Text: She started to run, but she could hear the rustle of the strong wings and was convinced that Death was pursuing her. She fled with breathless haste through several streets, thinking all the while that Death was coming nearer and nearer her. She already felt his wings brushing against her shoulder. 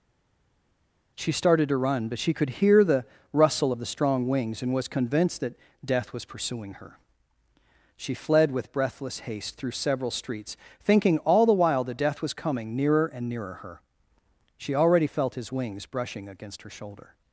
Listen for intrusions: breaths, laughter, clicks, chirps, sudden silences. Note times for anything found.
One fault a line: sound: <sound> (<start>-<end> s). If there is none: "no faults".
no faults